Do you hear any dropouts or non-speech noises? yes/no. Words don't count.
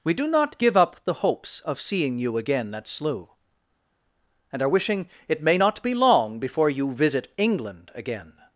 no